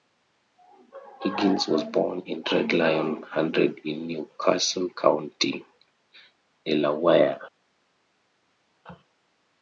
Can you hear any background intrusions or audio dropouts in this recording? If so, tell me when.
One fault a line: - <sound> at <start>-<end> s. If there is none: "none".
none